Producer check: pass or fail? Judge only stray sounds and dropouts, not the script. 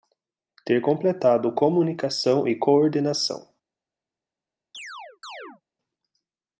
fail